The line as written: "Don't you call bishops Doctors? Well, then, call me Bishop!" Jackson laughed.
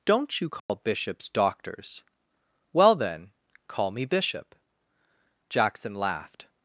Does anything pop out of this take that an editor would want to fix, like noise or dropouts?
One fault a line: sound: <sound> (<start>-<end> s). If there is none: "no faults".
sound: dropout (0.6-0.7 s)